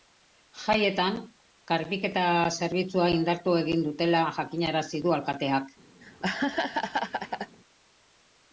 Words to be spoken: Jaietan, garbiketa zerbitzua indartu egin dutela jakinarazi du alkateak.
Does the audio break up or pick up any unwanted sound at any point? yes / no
yes